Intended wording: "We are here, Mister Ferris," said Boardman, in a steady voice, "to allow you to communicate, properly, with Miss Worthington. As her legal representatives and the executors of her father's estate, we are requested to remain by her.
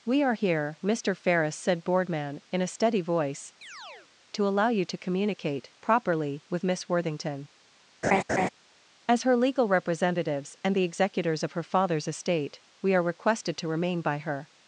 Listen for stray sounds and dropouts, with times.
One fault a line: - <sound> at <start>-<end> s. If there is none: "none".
- chirp at 3.6-4.1 s
- laugh at 8.0-8.5 s